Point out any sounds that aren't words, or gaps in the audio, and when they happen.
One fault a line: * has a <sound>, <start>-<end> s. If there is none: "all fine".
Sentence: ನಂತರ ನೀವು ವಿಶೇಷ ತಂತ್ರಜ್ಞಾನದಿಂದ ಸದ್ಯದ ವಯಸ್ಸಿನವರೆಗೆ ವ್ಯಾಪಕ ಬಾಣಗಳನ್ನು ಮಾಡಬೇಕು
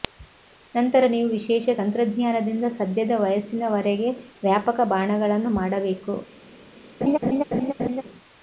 * has a laugh, 7.0-8.0 s